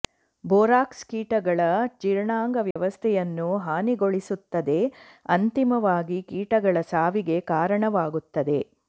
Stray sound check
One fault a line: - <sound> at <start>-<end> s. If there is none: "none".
- dropout at 2.7-2.8 s